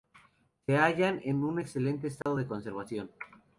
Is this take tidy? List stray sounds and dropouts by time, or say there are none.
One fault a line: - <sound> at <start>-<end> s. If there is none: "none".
- dropout at 2.2-2.3 s